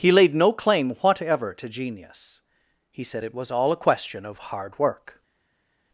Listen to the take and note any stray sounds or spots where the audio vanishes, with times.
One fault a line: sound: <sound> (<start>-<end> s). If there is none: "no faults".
no faults